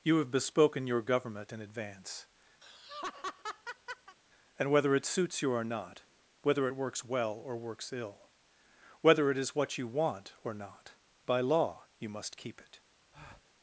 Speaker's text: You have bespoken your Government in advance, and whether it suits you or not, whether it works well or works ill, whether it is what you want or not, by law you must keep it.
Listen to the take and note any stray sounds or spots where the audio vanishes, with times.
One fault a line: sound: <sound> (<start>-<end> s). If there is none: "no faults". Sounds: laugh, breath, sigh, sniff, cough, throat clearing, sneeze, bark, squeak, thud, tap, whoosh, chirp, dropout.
sound: laugh (2.6-4.2 s)
sound: breath (13.1-13.5 s)